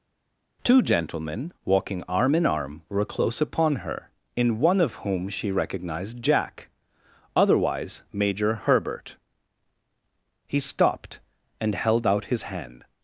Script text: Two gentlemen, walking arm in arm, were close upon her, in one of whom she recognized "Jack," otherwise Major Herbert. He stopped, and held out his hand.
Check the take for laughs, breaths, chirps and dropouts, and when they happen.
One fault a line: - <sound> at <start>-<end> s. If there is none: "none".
none